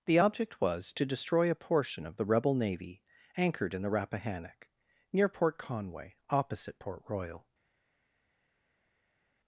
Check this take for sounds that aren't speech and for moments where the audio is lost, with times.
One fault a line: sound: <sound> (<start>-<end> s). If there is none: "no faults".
no faults